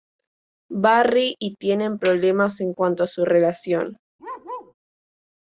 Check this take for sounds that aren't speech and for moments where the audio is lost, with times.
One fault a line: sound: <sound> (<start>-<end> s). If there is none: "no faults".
sound: bark (4.2-4.7 s)